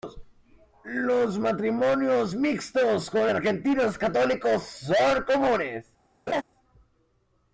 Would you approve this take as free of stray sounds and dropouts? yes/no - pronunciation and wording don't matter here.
no